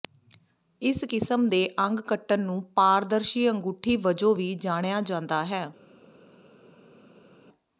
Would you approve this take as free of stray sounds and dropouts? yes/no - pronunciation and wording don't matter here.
yes